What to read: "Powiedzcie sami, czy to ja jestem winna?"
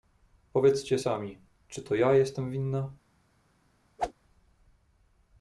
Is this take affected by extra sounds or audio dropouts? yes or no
yes